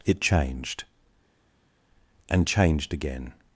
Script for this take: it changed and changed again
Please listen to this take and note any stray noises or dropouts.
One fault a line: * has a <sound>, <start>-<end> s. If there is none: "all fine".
all fine